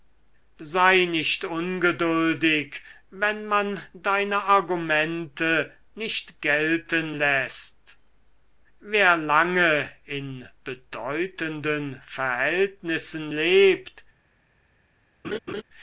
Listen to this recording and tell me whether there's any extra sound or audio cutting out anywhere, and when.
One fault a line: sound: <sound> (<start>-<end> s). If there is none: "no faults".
sound: laugh (15.2-15.6 s)